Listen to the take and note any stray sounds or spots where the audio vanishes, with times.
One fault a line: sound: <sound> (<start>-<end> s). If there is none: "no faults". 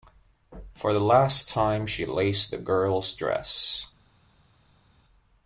no faults